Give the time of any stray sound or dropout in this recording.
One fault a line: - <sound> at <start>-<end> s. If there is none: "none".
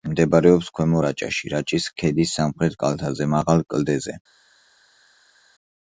none